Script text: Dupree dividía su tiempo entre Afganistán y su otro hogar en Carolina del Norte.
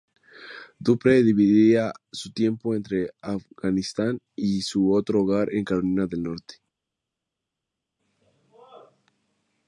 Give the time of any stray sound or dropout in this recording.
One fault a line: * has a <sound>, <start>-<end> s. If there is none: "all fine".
all fine